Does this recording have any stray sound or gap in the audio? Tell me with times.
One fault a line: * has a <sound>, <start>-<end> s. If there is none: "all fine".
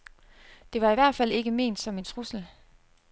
all fine